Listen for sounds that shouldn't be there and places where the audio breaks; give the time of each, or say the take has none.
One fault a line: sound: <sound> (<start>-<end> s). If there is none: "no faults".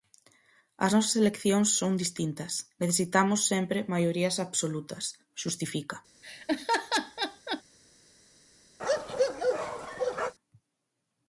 sound: laugh (6.2-7.6 s)
sound: bark (8.8-10.3 s)